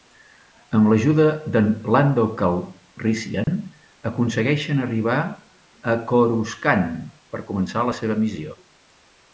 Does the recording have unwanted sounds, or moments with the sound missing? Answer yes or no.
yes